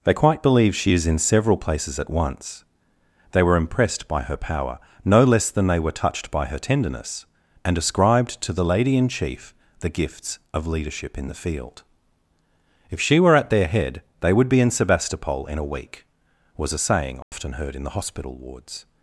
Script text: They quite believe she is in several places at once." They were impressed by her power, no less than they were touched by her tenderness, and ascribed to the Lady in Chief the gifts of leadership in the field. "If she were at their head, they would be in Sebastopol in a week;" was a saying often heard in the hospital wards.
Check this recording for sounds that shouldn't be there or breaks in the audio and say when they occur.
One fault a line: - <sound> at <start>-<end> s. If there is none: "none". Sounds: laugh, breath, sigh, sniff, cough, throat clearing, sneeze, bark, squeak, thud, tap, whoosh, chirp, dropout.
- dropout at 17.2-17.3 s